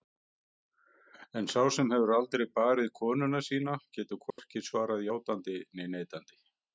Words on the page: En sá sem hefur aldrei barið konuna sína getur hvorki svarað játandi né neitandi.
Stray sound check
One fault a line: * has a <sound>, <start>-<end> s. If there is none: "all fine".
* has a dropout, 4.3-4.4 s